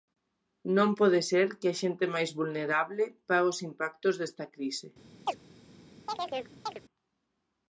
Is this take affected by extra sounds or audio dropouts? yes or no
yes